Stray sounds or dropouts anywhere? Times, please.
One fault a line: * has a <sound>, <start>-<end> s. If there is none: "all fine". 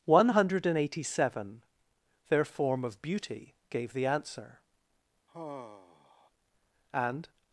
* has a sigh, 5.3-6.3 s